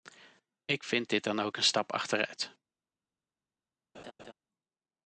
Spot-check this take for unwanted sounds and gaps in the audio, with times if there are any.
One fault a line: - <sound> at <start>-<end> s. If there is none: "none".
- laugh at 3.9-4.3 s